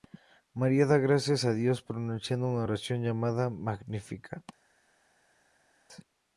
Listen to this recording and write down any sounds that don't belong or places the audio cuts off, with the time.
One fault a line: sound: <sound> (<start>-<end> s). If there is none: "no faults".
no faults